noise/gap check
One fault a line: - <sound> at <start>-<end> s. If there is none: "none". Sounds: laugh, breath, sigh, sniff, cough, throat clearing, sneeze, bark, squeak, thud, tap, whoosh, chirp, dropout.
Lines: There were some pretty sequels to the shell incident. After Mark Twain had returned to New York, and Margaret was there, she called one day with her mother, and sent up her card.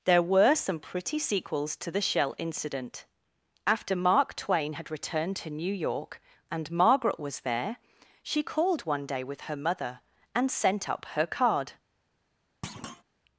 - thud at 12.6-13.0 s